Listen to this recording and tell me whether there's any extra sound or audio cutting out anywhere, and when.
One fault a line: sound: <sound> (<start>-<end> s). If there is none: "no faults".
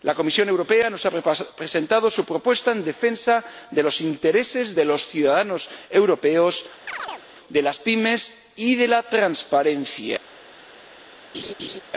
sound: chirp (6.9-7.2 s)
sound: laugh (11.3-11.8 s)